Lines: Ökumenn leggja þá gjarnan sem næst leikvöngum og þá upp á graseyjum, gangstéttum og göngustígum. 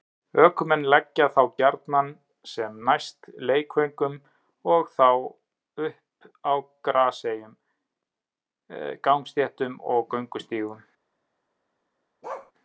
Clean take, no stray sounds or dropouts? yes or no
no